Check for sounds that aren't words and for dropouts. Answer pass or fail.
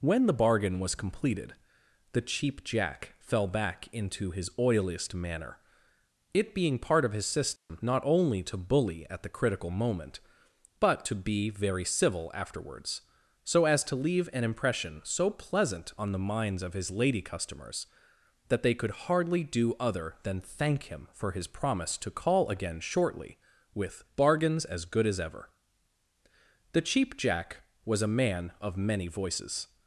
fail